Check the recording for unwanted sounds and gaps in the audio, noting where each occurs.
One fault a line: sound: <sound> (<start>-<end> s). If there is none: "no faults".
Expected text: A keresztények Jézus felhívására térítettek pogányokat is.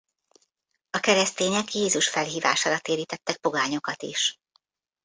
no faults